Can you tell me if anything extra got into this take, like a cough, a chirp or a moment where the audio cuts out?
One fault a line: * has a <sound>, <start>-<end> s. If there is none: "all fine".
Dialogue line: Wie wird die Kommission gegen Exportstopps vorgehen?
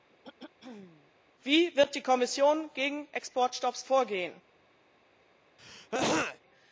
* has a throat clearing, 0.1-1.1 s
* has a throat clearing, 5.6-6.4 s